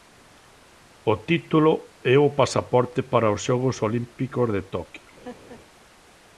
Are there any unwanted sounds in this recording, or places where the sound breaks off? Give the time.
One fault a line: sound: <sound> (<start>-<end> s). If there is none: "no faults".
sound: laugh (5.2-5.6 s)